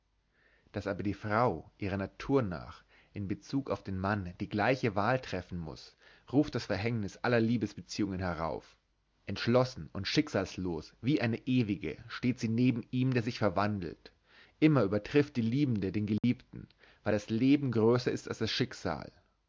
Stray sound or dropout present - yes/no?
yes